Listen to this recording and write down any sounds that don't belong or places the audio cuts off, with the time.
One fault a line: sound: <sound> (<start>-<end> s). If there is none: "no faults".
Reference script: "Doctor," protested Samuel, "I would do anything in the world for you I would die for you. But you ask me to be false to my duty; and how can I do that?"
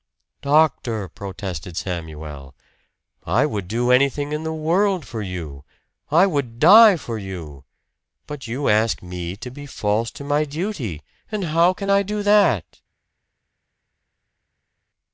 no faults